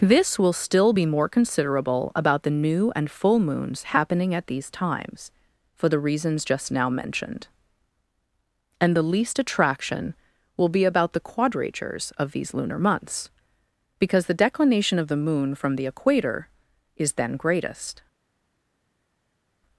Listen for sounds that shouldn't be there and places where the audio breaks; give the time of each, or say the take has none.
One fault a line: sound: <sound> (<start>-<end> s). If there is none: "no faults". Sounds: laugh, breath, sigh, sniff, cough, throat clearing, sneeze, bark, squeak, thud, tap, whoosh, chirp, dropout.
no faults